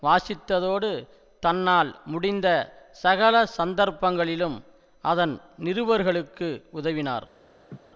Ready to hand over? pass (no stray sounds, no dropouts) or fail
fail